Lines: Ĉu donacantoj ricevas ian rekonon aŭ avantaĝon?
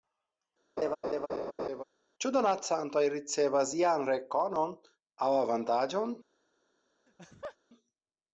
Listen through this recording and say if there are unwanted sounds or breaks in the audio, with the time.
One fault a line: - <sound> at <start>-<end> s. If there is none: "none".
- laugh at 0.8-1.8 s
- laugh at 7.1-7.6 s